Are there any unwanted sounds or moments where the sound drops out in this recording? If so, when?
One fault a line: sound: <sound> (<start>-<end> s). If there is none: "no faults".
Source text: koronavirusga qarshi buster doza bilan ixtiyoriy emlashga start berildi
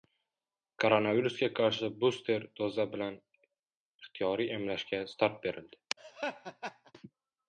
sound: laugh (6.0-6.9 s)